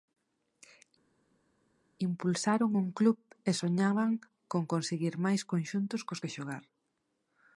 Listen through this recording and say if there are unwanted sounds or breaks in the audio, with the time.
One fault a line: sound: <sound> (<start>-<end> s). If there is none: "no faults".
no faults